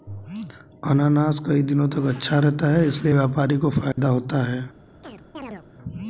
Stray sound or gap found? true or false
true